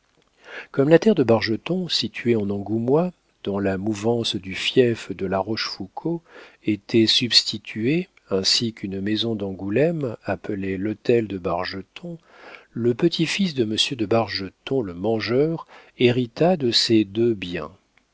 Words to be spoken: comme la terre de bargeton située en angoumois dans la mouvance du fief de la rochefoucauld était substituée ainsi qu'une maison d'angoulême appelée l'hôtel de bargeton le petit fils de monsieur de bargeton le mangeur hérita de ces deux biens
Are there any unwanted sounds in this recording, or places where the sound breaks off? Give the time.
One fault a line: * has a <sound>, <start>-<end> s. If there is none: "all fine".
all fine